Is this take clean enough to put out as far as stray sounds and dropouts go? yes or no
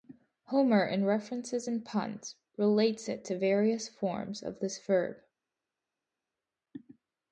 yes